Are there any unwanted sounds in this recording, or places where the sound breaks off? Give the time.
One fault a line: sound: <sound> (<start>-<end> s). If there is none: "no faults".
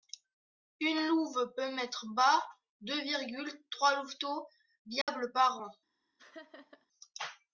sound: dropout (5.0-5.1 s)
sound: laugh (6.2-6.9 s)